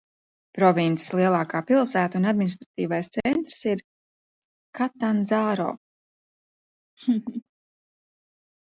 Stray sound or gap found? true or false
true